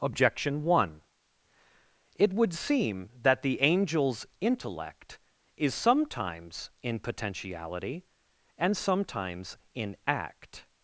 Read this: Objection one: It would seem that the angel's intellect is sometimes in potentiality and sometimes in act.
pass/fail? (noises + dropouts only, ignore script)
pass